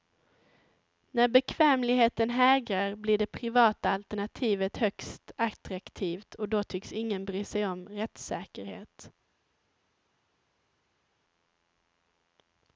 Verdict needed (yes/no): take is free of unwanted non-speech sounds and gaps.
yes